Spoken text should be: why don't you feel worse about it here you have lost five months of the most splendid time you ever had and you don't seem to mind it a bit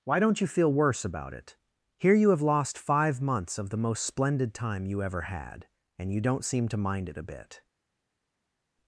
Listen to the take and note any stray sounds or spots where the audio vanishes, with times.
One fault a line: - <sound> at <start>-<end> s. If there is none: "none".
none